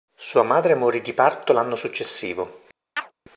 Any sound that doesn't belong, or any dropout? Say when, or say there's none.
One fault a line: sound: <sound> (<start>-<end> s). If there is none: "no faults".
sound: chirp (3.0-3.1 s)